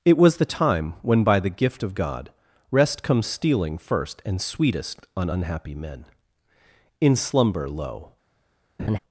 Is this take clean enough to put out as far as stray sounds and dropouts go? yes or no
no